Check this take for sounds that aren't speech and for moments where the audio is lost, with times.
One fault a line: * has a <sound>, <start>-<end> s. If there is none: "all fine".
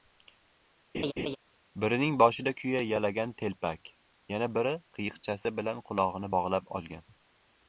* has a laugh, 0.9-1.4 s